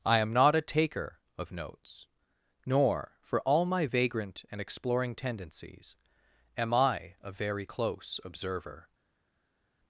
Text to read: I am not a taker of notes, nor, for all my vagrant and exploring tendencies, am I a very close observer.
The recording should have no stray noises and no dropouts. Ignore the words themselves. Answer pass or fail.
pass